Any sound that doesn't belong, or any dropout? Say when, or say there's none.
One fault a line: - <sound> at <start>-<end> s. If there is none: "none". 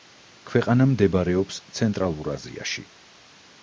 none